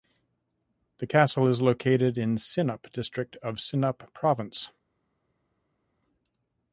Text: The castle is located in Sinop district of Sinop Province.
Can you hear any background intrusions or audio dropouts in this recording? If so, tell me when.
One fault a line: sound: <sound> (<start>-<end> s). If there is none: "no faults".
no faults